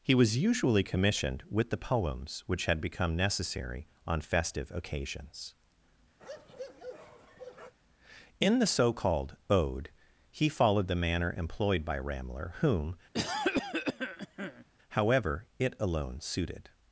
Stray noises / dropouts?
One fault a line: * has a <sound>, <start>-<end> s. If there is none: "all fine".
* has a bark, 6.2-7.7 s
* has a cough, 13.1-14.6 s